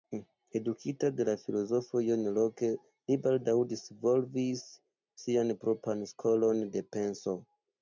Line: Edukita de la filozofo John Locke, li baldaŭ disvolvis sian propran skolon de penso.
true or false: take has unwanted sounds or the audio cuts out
false